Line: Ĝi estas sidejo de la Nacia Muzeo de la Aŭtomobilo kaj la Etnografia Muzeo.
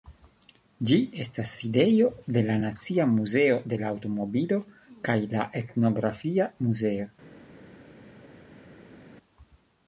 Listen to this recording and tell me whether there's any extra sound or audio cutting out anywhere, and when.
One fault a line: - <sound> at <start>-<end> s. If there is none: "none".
none